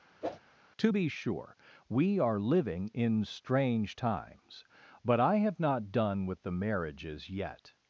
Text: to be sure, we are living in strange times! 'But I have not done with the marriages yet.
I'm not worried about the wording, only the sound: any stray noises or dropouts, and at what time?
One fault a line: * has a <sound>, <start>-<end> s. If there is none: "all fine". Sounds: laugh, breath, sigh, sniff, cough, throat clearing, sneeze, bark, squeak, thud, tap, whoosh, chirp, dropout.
* has a whoosh, 0.2-0.4 s